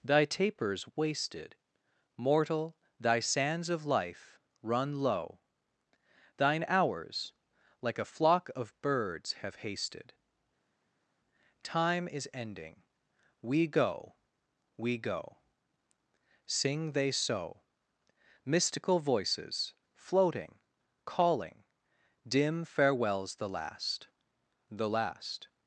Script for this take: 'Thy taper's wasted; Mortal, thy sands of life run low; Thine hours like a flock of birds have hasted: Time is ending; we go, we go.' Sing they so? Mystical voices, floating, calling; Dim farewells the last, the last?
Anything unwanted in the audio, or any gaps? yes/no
no